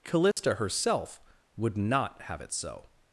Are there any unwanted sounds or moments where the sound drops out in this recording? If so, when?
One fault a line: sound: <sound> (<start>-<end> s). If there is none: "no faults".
sound: dropout (0.3-0.4 s)